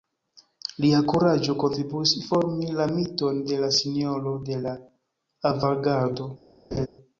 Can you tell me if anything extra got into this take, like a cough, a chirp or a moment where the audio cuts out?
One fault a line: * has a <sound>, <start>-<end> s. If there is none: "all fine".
* has a laugh, 6.7-6.9 s